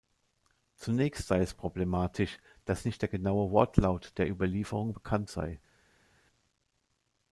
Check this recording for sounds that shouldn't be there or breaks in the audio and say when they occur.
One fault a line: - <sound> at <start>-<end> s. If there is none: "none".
none